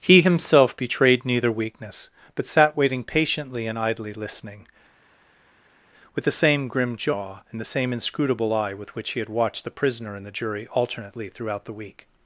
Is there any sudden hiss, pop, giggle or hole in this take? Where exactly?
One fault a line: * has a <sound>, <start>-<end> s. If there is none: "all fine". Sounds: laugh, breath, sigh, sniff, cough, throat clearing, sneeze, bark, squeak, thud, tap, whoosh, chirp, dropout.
all fine